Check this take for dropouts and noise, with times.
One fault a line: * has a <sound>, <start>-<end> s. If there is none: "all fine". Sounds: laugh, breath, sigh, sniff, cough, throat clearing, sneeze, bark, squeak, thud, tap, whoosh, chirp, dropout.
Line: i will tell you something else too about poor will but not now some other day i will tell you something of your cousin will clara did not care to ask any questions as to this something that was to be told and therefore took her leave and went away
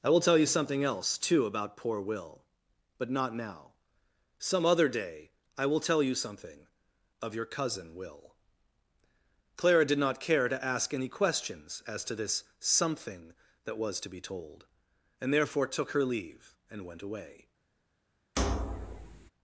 * has a thud, 18.4-19.3 s